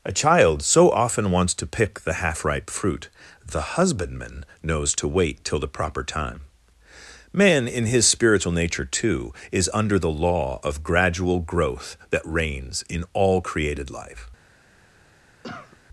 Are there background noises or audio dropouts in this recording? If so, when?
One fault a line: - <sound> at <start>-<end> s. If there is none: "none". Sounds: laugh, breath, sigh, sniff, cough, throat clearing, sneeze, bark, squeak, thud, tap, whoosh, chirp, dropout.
- cough at 15.4-15.8 s